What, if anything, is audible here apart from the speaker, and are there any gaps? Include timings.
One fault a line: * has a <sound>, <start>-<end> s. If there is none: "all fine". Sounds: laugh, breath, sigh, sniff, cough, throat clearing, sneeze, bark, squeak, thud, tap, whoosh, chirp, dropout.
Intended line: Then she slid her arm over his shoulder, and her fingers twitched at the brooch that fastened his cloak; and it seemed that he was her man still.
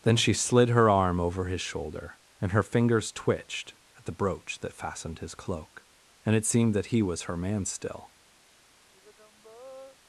* has a sigh, 8.9-10.0 s